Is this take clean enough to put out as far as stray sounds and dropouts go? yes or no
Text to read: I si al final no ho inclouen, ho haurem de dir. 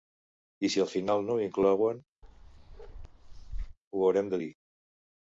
no